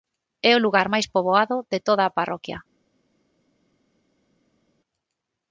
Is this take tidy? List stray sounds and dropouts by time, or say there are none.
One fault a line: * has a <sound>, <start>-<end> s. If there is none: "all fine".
all fine